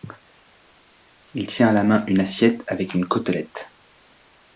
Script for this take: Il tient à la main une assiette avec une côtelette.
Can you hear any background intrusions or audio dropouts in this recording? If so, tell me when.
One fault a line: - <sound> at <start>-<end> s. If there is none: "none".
none